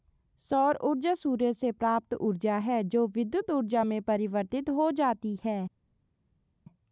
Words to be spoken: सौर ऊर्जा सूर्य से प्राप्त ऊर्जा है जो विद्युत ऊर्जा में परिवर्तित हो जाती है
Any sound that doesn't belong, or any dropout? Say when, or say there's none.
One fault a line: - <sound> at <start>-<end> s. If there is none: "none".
none